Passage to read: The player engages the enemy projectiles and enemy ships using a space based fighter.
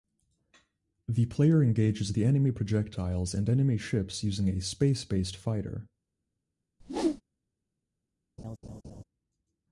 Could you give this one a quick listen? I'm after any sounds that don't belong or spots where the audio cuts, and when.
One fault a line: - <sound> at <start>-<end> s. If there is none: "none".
- whoosh at 6.8-7.2 s
- laugh at 8.4-9.0 s